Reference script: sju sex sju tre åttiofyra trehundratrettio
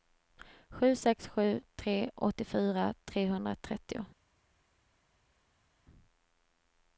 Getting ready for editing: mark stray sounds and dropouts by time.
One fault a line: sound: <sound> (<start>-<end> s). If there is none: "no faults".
no faults